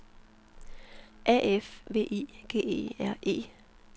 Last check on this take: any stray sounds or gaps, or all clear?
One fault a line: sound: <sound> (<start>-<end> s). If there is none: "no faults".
no faults